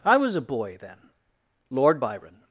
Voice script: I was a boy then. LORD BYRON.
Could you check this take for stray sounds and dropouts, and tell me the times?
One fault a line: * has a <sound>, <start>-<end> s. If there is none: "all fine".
all fine